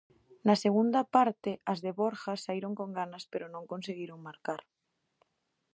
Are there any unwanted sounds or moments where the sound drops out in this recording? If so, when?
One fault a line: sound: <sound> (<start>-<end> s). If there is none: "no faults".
no faults